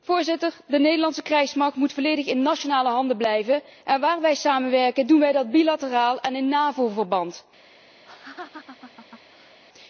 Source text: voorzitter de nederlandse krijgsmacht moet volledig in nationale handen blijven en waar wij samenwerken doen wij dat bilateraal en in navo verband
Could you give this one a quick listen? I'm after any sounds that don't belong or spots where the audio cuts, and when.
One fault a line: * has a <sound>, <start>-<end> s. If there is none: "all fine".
* has a laugh, 8.1-9.6 s